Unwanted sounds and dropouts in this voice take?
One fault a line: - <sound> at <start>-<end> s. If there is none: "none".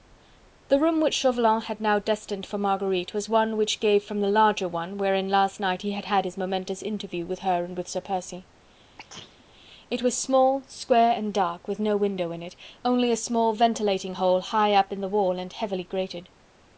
- sneeze at 9.0-9.5 s